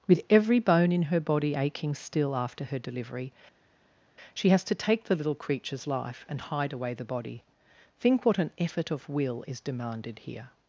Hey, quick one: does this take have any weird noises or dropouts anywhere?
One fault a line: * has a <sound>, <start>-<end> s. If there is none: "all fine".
all fine